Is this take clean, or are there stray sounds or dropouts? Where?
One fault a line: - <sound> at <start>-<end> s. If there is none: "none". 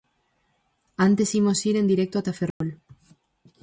- dropout at 2.5-2.6 s